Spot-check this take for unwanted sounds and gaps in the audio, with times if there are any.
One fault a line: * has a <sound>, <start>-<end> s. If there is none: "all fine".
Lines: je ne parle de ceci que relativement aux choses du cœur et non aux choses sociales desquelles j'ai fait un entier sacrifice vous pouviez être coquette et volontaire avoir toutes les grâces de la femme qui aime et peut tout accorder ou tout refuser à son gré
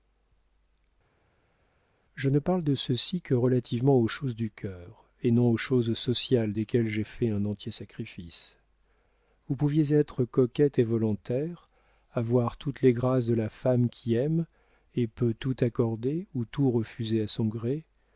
all fine